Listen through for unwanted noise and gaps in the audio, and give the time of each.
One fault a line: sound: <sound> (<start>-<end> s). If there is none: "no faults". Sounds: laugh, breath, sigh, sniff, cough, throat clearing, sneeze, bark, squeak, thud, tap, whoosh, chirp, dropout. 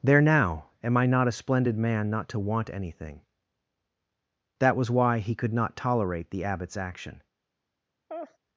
sound: laugh (8.1-8.4 s)